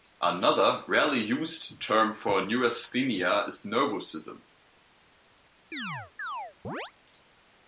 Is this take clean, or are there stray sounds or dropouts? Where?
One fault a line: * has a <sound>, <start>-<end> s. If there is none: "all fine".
* has a chirp, 5.7-6.9 s